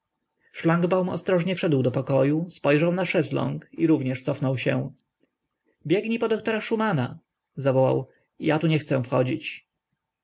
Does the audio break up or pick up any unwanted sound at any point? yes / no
no